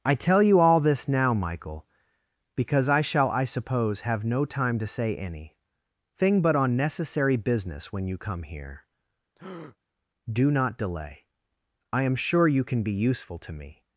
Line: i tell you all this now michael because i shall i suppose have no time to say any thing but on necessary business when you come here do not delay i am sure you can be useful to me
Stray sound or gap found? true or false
true